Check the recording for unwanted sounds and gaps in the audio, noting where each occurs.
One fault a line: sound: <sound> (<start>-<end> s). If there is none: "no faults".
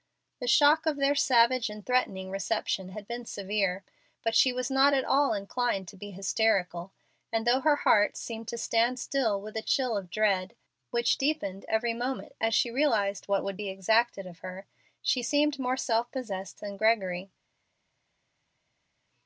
no faults